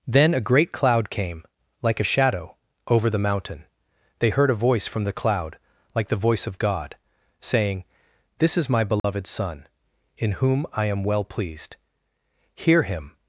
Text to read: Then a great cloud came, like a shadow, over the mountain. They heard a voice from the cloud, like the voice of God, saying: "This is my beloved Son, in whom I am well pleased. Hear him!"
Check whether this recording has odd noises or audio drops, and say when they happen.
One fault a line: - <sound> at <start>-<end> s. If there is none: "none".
- dropout at 9.0-9.0 s